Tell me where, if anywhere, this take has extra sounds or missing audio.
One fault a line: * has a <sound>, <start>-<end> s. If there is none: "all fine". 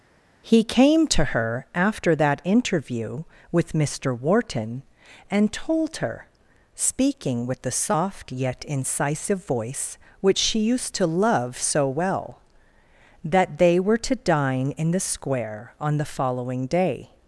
all fine